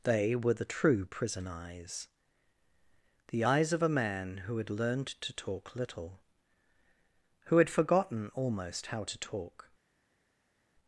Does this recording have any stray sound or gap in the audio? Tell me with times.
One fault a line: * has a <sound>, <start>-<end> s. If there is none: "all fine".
all fine